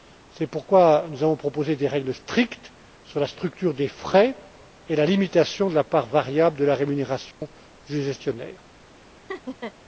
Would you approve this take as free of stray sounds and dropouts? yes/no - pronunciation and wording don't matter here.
no